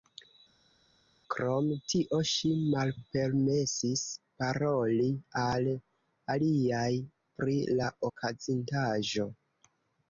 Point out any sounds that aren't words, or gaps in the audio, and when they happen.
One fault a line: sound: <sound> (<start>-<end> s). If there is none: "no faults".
no faults